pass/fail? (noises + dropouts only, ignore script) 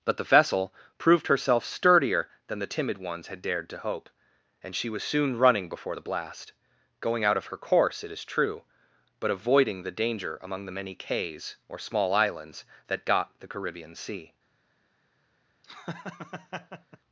fail